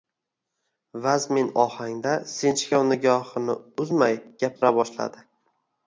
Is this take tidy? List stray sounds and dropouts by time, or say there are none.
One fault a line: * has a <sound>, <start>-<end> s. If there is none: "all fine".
* has a dropout, 4.6-4.6 s